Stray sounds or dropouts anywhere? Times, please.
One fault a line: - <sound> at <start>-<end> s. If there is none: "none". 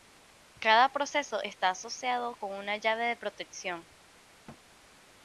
- thud at 4.5-4.6 s